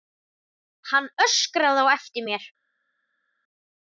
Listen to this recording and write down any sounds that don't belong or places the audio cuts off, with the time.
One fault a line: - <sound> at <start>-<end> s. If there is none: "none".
none